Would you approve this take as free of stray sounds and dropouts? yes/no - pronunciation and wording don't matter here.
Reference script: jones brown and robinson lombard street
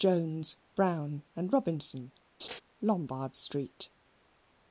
no